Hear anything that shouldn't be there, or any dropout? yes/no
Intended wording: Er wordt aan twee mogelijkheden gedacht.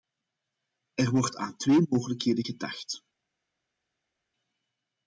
no